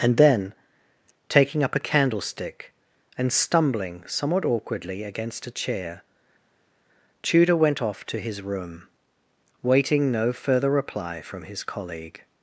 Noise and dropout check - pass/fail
pass